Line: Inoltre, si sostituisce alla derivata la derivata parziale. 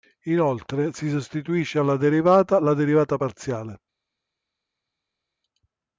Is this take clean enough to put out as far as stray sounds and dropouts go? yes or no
yes